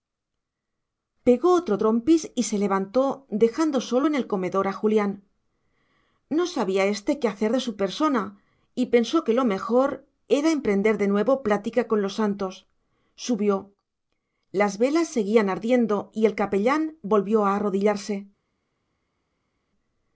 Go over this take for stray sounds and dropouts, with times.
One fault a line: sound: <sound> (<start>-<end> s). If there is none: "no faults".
no faults